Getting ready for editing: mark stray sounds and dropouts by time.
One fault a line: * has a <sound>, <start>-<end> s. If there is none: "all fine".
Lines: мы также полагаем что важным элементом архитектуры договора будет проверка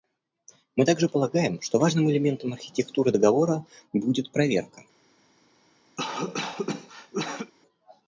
* has a cough, 6.0-7.5 s